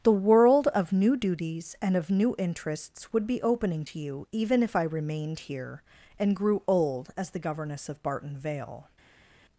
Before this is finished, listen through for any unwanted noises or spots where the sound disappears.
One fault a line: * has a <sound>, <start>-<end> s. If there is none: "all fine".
all fine